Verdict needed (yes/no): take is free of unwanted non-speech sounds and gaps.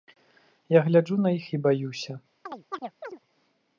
no